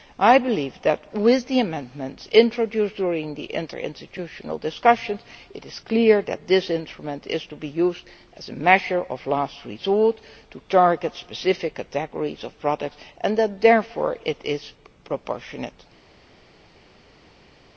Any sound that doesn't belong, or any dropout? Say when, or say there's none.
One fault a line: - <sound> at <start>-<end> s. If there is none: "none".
none